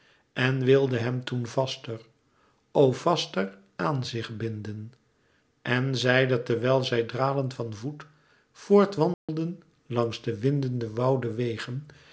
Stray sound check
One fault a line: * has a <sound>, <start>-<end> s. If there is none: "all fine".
* has a dropout, 9.1-9.3 s